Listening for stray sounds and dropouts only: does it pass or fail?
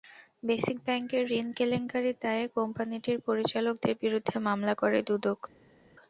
pass